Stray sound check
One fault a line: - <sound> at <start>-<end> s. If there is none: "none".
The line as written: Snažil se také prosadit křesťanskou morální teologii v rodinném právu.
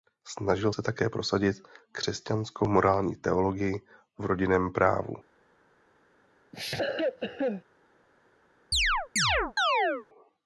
- cough at 6.5-7.6 s
- chirp at 8.7-10.1 s